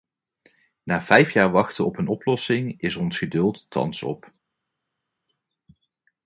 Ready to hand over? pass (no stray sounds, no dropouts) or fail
pass